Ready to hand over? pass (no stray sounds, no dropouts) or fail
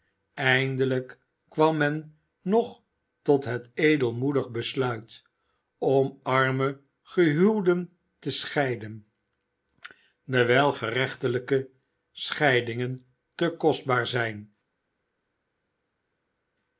pass